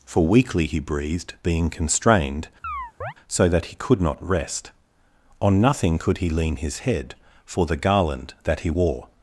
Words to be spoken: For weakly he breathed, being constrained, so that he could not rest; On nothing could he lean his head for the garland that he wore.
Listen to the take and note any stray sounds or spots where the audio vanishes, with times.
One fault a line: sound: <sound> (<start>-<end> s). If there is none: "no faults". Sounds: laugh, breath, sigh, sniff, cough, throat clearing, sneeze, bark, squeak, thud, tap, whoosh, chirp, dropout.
sound: chirp (2.6-3.1 s)